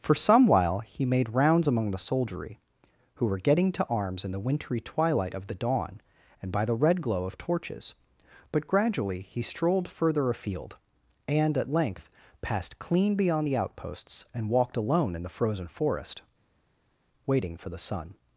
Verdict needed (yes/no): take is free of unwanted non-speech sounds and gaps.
yes